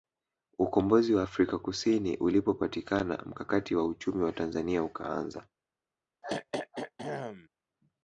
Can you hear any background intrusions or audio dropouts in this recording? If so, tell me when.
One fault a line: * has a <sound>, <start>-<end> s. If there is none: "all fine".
* has a throat clearing, 6.2-7.5 s